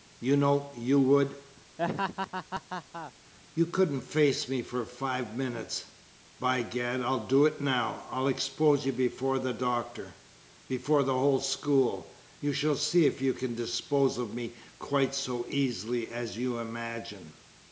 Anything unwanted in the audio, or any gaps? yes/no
yes